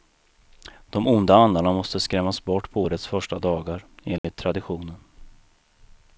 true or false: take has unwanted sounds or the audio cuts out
true